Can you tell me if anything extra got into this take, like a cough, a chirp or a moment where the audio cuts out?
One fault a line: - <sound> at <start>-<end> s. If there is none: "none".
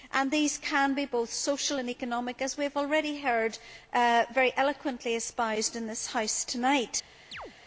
- chirp at 7.3-7.5 s